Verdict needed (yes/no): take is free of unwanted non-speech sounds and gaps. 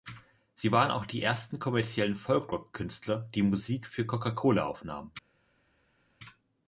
yes